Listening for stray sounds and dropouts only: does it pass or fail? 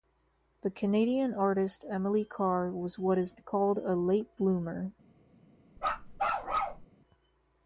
fail